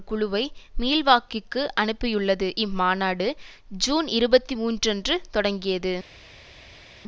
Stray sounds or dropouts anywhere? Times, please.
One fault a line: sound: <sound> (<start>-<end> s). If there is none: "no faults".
no faults